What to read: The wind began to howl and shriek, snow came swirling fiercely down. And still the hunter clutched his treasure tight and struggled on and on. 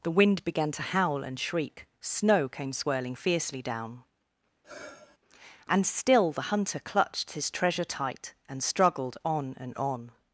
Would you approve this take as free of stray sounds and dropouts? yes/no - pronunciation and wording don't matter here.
no